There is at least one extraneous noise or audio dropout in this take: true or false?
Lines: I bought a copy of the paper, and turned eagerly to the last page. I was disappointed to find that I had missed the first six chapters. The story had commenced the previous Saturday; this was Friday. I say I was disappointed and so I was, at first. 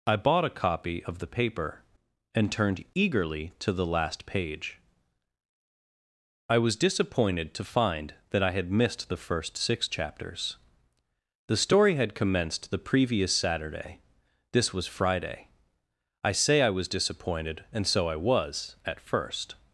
false